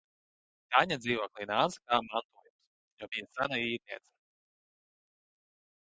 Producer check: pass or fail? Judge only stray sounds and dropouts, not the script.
pass